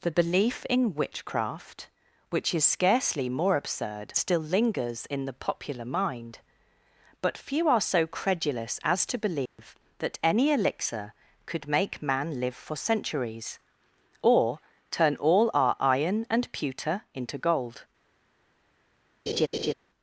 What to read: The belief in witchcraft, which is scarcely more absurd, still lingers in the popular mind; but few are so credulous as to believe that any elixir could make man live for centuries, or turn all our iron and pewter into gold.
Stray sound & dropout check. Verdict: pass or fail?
fail